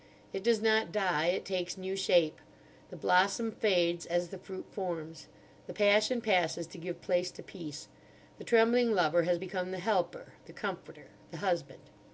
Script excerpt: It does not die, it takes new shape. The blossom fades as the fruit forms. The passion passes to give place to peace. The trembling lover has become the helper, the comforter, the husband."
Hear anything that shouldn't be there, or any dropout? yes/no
no